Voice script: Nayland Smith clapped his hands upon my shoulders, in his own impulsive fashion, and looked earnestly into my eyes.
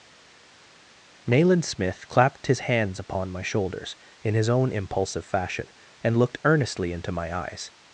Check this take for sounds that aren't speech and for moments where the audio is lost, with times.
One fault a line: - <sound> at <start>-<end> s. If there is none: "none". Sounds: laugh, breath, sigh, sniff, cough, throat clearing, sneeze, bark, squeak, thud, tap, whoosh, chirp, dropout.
none